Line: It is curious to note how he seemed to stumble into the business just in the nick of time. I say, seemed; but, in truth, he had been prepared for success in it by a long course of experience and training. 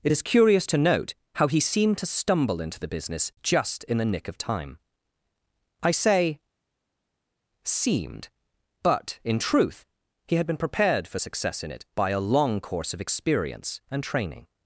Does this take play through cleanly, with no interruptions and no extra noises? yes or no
yes